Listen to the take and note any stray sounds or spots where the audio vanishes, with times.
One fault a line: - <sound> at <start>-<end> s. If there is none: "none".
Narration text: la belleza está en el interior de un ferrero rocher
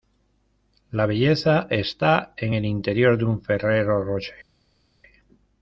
none